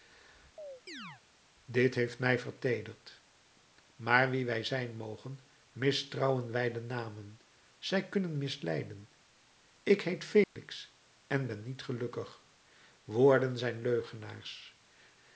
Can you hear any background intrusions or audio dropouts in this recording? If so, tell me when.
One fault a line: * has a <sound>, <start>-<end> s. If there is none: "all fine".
* has a chirp, 0.6-1.2 s
* has a dropout, 10.4-10.6 s